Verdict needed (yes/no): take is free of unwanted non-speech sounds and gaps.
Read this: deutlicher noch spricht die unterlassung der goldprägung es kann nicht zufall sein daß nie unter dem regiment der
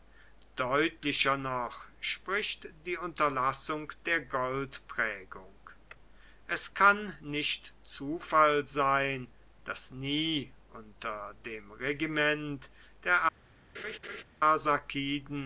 no